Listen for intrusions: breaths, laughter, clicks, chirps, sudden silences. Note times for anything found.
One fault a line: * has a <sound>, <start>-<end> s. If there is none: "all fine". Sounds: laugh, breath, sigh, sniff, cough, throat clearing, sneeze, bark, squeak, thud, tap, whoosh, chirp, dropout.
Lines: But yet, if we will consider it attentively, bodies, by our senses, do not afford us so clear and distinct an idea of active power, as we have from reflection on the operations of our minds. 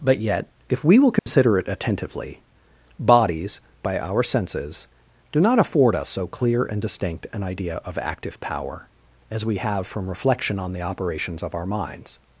* has a dropout, 1.2-1.3 s